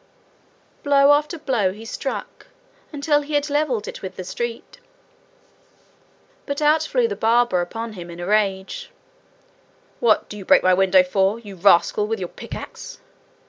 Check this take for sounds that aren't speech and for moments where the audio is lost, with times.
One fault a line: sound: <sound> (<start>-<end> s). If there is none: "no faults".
no faults